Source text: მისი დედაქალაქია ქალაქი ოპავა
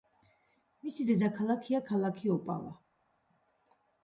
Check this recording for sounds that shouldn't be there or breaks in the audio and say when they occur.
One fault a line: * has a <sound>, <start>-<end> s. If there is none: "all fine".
all fine